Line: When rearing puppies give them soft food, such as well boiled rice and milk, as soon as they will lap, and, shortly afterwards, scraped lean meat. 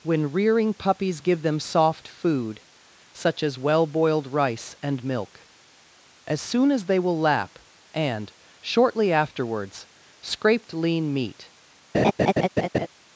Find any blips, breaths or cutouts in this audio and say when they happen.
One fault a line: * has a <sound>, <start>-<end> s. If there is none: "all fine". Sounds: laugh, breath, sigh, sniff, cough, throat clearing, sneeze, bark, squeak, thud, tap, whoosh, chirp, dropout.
* has a laugh, 11.9-12.9 s